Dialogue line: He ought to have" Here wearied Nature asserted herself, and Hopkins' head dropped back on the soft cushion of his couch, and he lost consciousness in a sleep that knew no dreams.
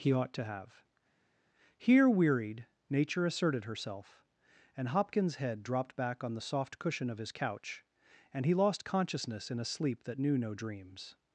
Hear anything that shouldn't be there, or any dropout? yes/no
no